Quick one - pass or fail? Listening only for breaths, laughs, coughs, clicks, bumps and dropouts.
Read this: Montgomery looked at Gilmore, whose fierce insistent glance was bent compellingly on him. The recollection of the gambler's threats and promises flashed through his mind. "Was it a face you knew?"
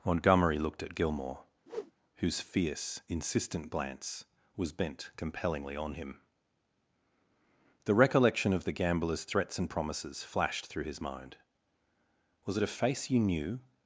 fail